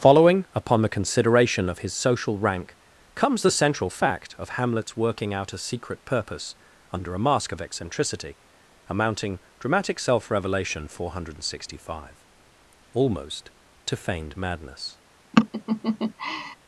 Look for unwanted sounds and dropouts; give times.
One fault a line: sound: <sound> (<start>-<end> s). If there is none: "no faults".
sound: laugh (15.3-16.6 s)